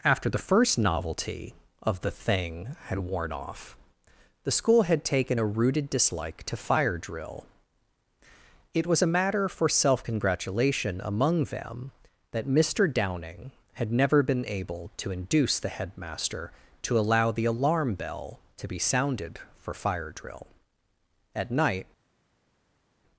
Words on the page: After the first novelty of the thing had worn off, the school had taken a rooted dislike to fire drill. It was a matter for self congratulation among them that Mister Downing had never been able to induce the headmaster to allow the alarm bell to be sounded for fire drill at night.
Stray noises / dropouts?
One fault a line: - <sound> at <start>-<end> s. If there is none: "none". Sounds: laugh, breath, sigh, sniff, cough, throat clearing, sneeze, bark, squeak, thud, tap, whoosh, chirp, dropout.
none